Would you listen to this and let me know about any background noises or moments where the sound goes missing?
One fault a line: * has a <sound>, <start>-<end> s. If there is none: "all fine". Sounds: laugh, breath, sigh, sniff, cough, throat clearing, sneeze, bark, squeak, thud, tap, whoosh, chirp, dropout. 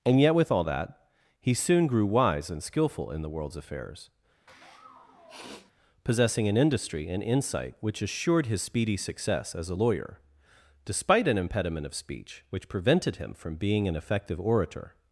* has a sniff, 4.5-5.7 s